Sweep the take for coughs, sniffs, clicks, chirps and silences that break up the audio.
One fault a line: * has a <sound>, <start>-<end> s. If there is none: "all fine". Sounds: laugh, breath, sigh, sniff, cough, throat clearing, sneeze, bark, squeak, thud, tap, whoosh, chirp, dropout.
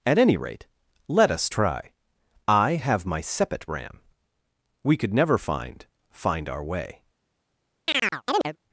* has a chirp, 7.9-8.6 s